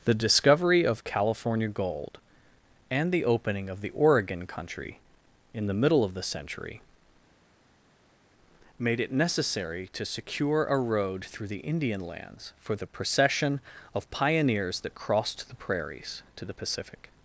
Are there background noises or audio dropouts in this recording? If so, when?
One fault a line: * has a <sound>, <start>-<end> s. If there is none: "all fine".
all fine